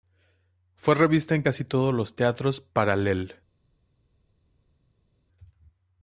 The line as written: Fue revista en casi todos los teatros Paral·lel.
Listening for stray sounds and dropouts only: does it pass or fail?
pass